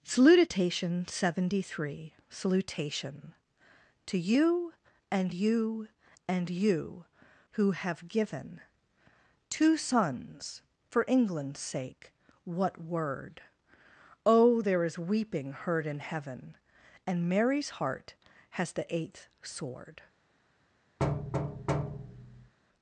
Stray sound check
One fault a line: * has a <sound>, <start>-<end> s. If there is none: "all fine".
* has a thud, 21.0-22.5 s